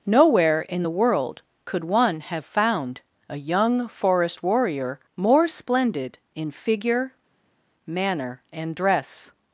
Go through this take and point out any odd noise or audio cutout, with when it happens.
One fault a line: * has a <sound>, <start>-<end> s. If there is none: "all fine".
all fine